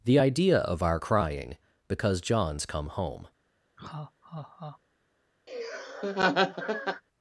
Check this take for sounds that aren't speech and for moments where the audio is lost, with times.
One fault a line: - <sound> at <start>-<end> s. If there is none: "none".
- laugh at 3.8-4.8 s
- laugh at 5.5-7.0 s